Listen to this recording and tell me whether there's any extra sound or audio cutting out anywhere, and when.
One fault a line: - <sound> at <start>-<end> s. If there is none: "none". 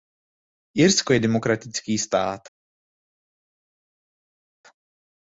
none